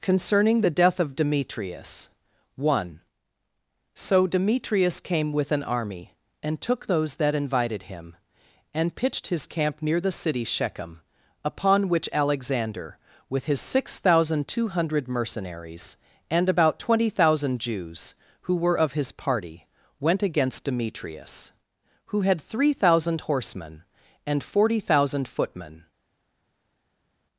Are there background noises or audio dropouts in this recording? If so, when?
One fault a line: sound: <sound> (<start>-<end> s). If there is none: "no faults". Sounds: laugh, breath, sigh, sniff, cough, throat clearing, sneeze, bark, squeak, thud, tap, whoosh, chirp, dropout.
no faults